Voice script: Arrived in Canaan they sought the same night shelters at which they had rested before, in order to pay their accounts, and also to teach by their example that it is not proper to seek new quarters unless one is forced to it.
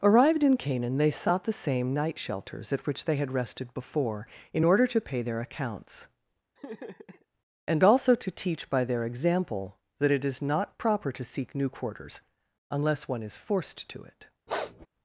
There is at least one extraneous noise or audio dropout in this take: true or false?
true